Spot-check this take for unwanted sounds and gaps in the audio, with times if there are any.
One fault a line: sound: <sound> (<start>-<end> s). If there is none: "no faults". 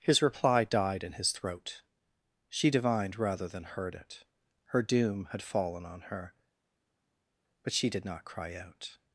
no faults